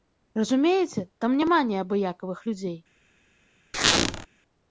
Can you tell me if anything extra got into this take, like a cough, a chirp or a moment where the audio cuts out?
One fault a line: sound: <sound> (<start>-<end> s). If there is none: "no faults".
sound: squeak (3.7-4.3 s)